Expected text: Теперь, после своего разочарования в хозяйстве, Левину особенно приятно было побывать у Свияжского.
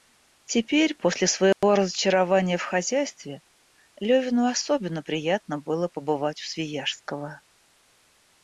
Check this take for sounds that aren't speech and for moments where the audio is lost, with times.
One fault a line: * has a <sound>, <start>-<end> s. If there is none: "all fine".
* has a dropout, 1.5-1.6 s